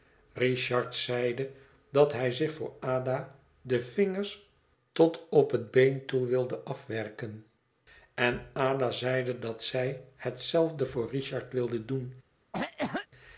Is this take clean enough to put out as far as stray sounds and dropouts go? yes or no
no